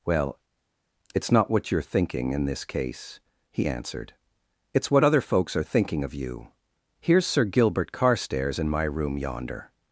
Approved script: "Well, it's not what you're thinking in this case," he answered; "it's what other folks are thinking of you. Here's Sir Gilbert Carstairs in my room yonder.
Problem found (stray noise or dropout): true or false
false